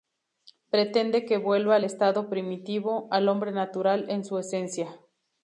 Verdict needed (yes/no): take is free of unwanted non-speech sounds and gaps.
yes